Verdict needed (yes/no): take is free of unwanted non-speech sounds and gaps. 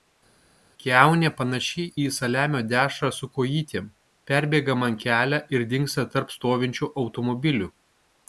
yes